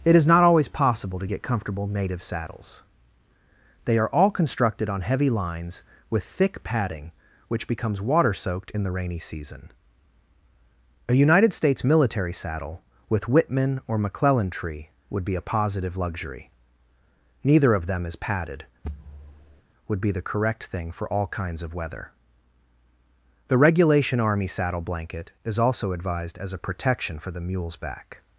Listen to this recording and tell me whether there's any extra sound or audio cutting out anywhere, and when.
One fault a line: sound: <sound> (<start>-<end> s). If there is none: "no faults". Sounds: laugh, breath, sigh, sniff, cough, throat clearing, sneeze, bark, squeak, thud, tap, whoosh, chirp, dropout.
sound: thud (18.8-19.6 s)